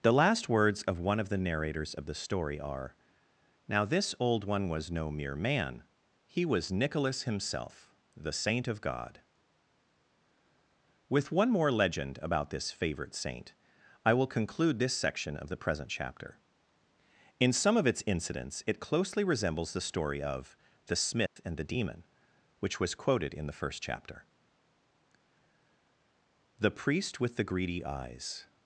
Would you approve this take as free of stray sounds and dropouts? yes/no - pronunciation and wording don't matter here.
no